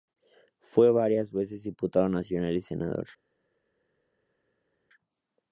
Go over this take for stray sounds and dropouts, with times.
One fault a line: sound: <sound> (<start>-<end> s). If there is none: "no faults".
no faults